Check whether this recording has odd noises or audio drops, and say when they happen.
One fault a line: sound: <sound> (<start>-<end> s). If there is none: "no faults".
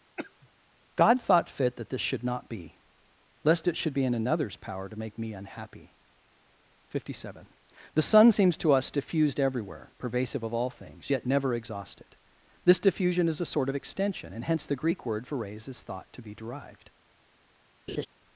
sound: cough (0.2-0.5 s)
sound: laugh (17.9-18.1 s)